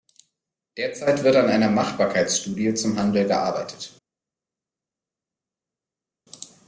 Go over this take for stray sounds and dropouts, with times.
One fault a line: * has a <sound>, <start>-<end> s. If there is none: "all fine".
all fine